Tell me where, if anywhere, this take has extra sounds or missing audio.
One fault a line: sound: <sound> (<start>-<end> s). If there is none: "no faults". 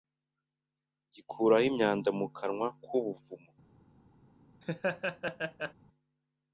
sound: laugh (4.6-5.7 s)